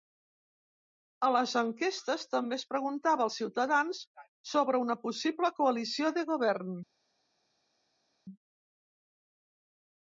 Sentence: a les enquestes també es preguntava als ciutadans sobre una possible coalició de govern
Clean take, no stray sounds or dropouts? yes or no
yes